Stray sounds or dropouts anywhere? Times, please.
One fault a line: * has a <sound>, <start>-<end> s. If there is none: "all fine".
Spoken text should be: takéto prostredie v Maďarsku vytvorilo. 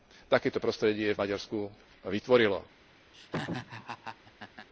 * has a laugh, 3.1-4.7 s